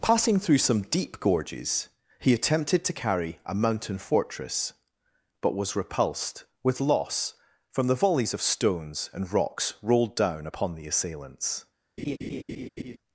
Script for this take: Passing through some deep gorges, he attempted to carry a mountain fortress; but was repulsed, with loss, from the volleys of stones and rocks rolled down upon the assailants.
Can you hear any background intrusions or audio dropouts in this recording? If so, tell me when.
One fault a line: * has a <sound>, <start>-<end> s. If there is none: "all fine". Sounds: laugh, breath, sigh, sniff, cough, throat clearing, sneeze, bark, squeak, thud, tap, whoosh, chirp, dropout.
* has a laugh, 12.0-13.0 s